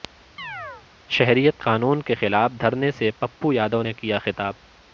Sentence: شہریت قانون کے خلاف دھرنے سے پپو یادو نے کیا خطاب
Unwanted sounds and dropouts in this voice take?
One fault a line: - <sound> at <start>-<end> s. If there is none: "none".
- chirp at 0.4-0.9 s